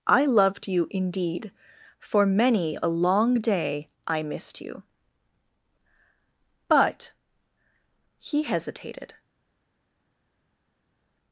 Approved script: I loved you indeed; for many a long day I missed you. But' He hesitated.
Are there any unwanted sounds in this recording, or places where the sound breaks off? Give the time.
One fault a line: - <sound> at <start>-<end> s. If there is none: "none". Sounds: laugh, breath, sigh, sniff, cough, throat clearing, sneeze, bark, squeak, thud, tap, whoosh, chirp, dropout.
none